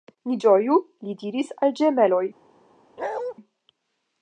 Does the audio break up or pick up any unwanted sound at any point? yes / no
yes